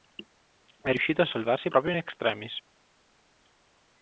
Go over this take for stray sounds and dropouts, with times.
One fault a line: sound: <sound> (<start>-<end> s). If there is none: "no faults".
no faults